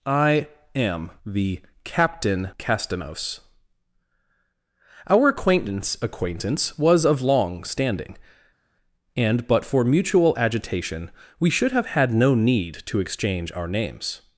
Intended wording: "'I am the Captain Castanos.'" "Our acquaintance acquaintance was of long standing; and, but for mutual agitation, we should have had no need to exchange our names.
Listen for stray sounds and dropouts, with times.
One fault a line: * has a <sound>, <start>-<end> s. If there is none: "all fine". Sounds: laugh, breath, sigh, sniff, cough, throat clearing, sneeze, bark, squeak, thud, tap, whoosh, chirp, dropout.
all fine